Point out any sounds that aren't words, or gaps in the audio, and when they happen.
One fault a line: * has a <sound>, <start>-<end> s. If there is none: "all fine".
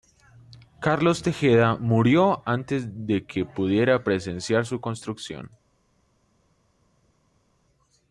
all fine